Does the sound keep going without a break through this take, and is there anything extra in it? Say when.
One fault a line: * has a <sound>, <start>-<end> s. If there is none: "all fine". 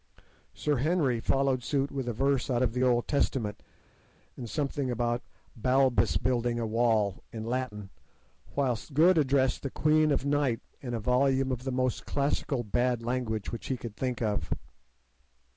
all fine